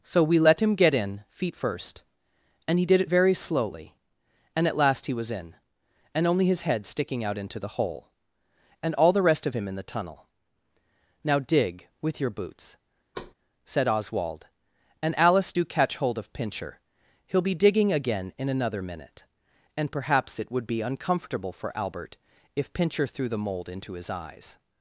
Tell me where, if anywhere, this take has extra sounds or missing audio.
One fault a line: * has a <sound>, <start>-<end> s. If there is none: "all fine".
* has a thud, 13.1-13.3 s